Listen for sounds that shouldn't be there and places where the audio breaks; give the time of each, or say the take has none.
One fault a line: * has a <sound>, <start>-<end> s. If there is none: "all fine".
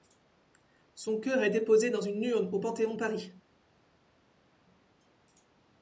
all fine